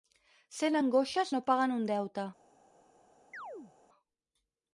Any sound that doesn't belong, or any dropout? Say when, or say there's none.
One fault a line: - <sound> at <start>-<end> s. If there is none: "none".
- chirp at 3.3-3.7 s